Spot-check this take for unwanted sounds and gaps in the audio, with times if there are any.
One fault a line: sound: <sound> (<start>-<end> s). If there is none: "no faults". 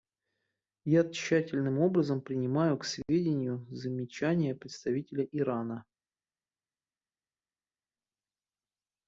no faults